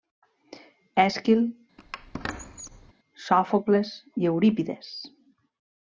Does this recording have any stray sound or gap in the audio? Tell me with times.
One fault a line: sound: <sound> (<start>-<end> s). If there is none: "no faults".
sound: squeak (1.8-2.9 s)